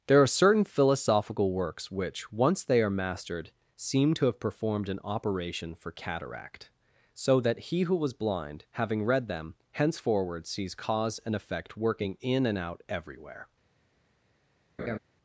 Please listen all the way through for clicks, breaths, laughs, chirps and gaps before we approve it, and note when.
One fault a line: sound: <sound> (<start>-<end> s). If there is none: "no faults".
sound: laugh (14.8-15.0 s)